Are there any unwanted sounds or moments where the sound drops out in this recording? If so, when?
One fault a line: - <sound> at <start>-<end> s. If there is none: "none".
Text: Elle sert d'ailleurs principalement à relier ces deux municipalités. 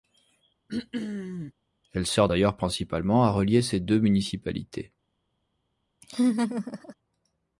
- throat clearing at 0.7-1.5 s
- laugh at 6.0-7.0 s